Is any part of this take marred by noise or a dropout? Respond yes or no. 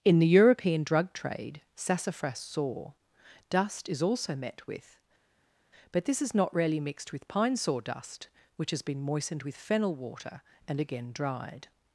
no